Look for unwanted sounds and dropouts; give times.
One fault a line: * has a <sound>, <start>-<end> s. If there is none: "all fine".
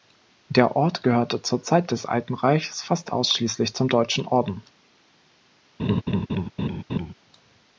* has a laugh, 5.8-7.1 s